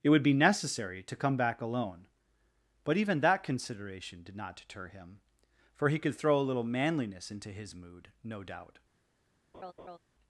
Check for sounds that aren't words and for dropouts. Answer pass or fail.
fail